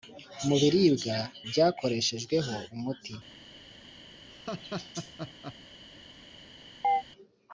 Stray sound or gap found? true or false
true